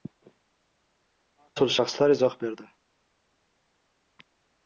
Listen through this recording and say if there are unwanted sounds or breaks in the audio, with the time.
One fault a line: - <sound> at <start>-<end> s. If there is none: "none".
none